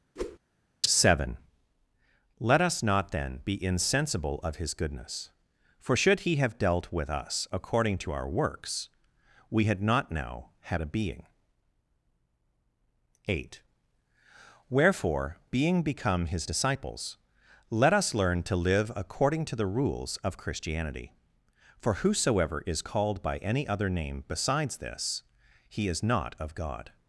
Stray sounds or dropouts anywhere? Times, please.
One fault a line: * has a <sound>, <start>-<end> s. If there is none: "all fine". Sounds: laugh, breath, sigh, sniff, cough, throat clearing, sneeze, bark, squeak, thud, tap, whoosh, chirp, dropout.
* has a whoosh, 0.2-0.4 s